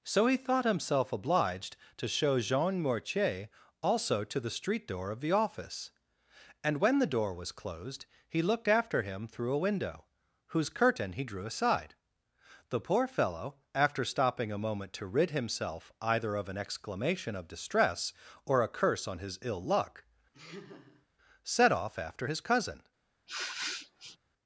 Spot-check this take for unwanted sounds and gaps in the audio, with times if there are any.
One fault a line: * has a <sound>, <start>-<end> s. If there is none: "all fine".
* has a laugh, 20.3-21.1 s
* has a sniff, 23.3-24.2 s